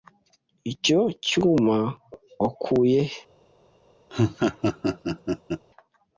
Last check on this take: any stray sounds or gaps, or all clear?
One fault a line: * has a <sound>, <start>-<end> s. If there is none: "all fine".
* has a laugh, 4.1-5.6 s